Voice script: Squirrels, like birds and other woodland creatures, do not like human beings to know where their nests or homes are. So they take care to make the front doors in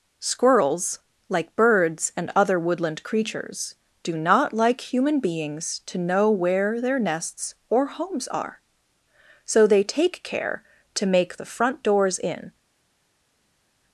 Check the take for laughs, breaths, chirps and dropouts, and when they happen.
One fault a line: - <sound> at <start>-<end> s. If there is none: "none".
none